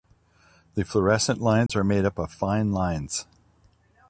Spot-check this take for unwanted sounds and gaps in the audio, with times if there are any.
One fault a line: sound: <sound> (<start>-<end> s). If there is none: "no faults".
sound: dropout (1.7-1.7 s)